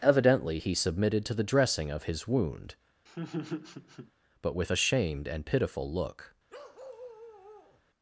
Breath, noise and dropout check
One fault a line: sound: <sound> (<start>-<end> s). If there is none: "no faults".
sound: laugh (3.1-4.1 s)
sound: bark (6.5-7.8 s)